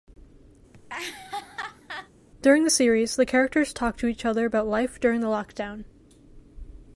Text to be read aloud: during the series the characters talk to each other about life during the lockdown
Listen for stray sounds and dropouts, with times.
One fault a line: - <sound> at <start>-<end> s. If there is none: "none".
- laugh at 0.7-2.1 s